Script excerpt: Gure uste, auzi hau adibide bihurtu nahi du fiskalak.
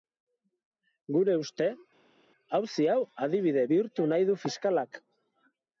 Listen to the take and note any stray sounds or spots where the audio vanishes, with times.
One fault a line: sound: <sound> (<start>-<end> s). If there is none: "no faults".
no faults